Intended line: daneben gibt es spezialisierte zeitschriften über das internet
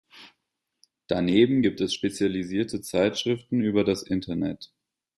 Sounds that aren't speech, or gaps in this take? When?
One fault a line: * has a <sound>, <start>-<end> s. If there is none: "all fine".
all fine